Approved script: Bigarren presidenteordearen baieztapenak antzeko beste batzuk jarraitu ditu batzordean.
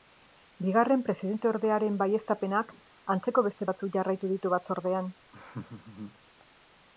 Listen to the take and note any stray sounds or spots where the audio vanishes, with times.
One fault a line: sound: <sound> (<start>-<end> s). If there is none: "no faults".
sound: laugh (5.3-6.2 s)